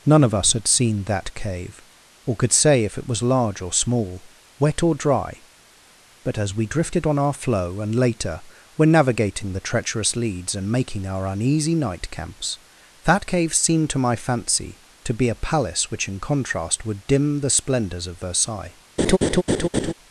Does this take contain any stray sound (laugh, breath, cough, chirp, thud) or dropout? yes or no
yes